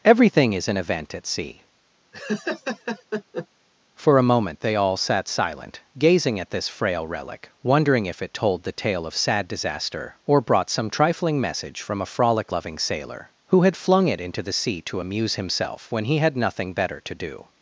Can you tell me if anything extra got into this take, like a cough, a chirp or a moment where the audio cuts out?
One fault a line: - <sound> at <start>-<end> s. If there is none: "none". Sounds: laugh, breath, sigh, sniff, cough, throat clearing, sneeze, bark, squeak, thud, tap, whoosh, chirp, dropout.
- laugh at 2.1-3.5 s